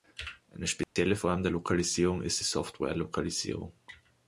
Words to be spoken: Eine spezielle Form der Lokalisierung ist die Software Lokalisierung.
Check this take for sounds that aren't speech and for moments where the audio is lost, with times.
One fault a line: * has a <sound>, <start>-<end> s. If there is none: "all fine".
* has a dropout, 0.8-1.0 s